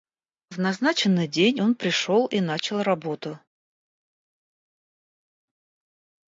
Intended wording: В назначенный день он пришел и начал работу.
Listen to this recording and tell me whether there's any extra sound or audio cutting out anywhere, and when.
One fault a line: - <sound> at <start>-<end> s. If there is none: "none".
none